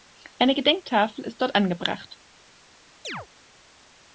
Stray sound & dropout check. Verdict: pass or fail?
fail